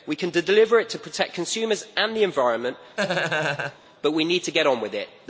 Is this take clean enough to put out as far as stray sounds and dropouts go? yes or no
no